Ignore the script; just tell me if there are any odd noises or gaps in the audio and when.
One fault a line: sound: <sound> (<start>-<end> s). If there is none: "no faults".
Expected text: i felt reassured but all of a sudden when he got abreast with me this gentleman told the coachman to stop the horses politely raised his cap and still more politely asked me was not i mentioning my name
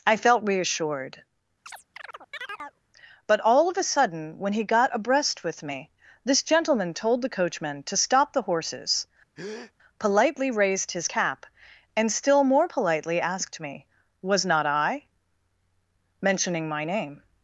sound: chirp (1.7-2.8 s)
sound: breath (9.4-9.7 s)